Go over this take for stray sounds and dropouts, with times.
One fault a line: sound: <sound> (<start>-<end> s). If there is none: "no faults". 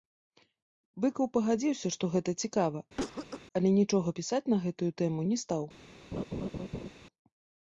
sound: cough (3.0-3.5 s)
sound: laugh (6.1-6.9 s)